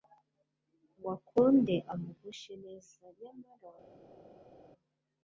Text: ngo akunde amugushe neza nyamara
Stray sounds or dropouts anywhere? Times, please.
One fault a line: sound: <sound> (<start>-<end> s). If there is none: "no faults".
no faults